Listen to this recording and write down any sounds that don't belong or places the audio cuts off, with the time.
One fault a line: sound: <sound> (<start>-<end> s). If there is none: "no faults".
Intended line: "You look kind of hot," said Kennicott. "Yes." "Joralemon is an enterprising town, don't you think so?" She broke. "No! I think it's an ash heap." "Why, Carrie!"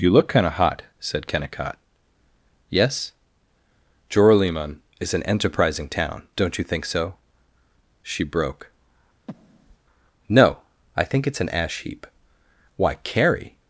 sound: breath (9.3-9.8 s)